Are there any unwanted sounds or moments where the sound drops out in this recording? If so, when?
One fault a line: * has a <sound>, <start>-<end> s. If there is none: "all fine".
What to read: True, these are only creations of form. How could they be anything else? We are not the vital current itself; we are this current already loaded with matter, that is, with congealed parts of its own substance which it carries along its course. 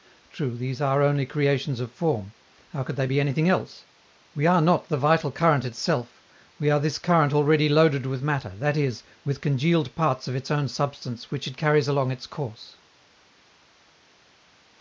all fine